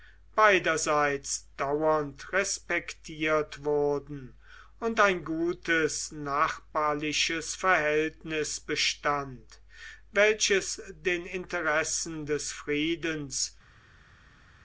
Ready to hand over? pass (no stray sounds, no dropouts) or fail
pass